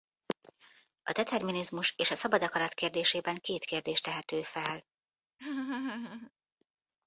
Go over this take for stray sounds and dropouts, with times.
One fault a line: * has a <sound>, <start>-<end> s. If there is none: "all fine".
* has a laugh, 5.4-6.3 s